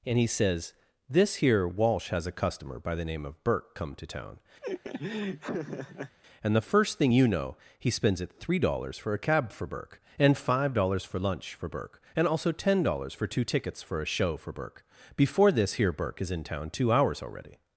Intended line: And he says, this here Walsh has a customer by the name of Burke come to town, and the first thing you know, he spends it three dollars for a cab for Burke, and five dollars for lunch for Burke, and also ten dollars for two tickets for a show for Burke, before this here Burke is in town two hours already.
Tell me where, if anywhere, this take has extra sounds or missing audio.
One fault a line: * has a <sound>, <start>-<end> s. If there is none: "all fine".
* has a laugh, 4.6-6.2 s